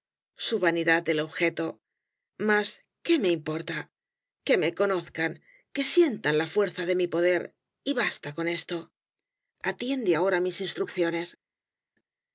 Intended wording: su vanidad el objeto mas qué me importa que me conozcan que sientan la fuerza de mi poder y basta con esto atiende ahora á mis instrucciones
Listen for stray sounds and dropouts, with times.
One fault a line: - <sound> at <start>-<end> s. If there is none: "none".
none